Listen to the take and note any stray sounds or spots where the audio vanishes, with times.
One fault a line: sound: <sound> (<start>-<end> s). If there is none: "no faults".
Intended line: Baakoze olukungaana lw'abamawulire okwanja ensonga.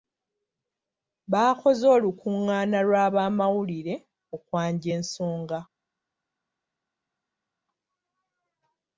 no faults